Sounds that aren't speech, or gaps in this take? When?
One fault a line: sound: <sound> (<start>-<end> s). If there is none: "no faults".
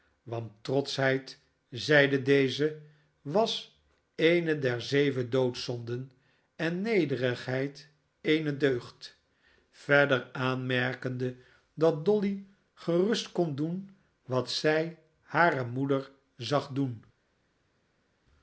no faults